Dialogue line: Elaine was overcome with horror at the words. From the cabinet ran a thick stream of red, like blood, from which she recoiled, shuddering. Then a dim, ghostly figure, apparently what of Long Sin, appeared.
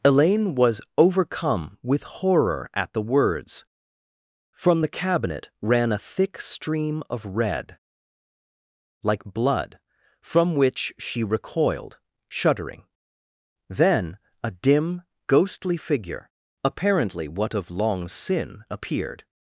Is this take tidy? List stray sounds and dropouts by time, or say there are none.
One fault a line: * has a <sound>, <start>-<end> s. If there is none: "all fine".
all fine